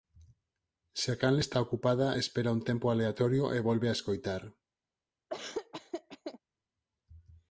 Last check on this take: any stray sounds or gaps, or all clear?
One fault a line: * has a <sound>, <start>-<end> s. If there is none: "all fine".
* has a laugh, 5.3-6.4 s